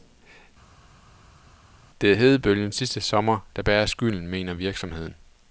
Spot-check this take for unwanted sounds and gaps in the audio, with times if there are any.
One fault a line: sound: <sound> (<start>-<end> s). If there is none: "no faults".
no faults